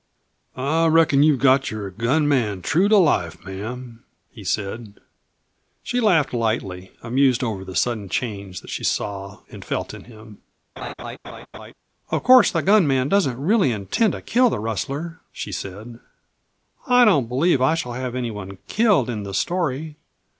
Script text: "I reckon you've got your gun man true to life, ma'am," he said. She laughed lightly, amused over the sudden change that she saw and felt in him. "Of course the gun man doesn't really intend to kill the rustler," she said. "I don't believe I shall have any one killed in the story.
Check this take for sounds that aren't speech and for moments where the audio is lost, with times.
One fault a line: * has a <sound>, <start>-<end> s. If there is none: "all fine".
* has a laugh, 10.8-11.7 s